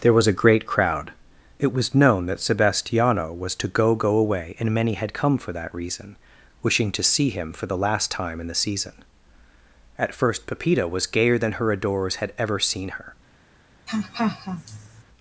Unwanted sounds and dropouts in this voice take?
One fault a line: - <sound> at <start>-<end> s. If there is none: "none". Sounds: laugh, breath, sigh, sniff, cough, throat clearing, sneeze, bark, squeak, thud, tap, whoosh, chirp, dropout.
- laugh at 13.9-15.0 s